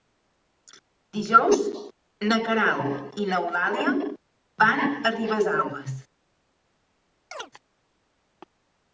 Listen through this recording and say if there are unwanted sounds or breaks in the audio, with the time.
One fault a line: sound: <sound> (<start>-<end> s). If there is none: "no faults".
sound: chirp (7.3-7.5 s)